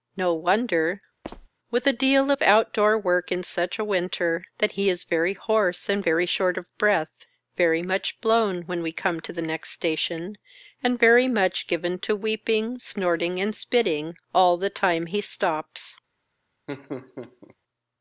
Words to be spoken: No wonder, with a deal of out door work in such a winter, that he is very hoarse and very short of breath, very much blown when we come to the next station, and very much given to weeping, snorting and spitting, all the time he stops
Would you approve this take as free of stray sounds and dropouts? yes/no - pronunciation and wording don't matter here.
no